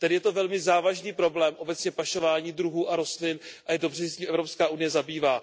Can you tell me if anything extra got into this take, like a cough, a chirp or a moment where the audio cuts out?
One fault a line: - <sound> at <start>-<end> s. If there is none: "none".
none